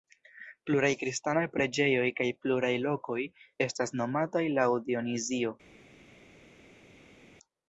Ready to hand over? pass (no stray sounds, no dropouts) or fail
pass